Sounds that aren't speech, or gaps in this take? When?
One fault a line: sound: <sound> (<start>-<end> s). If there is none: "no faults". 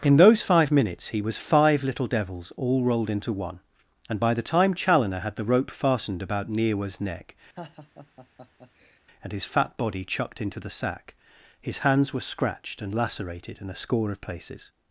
sound: laugh (7.6-9.0 s)